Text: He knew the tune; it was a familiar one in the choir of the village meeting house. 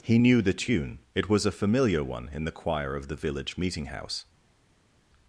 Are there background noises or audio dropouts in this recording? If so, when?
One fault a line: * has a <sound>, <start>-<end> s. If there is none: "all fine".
all fine